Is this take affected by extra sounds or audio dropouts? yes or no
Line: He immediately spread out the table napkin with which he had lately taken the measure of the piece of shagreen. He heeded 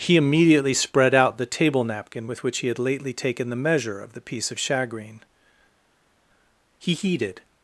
no